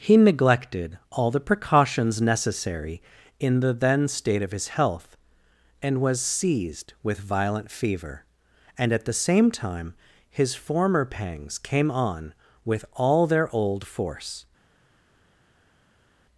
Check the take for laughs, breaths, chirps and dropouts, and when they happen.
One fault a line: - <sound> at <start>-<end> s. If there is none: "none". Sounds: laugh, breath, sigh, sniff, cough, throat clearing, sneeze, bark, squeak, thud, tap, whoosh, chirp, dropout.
none